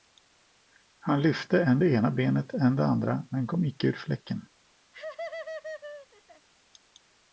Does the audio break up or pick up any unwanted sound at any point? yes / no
yes